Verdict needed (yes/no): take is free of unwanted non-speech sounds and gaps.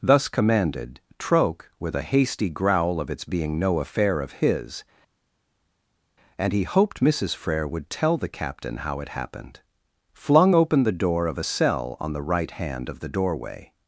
yes